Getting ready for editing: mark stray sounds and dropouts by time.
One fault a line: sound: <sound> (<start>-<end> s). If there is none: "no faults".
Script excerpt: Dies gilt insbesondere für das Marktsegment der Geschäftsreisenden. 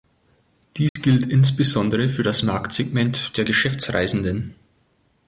sound: dropout (0.9-1.0 s)